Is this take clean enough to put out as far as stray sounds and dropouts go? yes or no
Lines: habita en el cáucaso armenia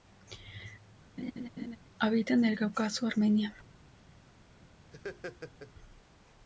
no